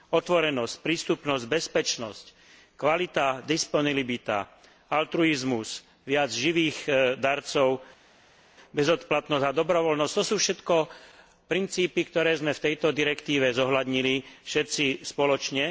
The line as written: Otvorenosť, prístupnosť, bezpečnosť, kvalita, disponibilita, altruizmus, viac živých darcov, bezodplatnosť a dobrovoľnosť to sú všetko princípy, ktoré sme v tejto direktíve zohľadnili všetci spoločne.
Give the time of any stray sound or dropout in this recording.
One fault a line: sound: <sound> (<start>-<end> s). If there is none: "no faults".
no faults